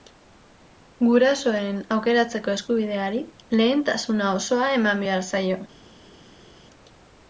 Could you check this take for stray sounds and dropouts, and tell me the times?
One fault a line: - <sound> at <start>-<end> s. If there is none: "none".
none